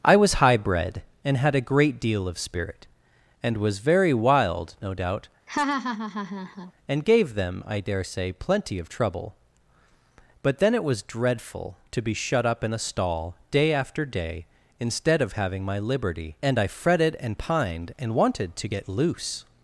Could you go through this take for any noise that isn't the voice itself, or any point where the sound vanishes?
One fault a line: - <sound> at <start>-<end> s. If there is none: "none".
- laugh at 5.5-6.7 s